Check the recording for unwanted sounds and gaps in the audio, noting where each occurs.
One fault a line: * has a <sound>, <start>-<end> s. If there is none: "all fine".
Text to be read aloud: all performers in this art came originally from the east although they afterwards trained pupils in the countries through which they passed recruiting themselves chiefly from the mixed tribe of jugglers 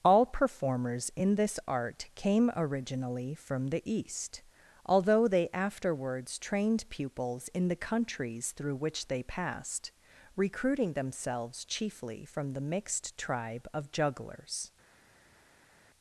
all fine